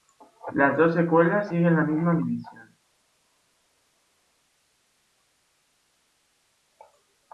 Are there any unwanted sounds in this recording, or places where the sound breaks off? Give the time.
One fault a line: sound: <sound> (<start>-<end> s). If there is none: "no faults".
no faults